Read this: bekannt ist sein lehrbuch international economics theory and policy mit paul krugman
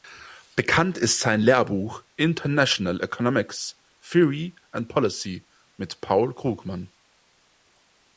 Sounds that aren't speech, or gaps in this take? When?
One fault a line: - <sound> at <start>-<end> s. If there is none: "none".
none